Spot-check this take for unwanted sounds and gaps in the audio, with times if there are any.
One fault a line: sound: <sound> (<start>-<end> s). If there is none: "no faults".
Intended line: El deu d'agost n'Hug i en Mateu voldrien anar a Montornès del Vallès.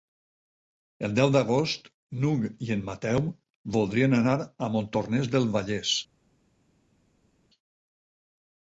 no faults